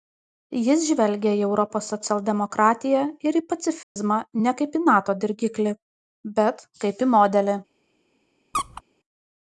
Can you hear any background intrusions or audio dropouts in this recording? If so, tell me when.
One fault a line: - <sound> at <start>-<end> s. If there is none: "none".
- dropout at 3.8-4.0 s
- squeak at 8.5-8.8 s